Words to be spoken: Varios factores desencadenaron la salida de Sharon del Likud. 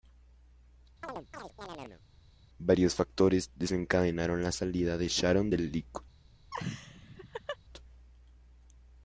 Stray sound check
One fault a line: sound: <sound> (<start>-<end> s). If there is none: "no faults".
sound: chirp (1.0-2.0 s)
sound: laugh (6.5-7.6 s)